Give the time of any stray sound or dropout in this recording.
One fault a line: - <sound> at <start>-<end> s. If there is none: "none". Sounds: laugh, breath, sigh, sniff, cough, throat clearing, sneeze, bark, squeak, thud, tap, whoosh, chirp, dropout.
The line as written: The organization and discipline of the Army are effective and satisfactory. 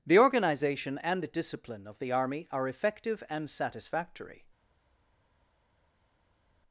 none